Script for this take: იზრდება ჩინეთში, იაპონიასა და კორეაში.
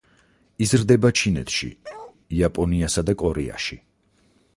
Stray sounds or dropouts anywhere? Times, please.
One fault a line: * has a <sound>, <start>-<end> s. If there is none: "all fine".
* has a bark, 1.8-2.2 s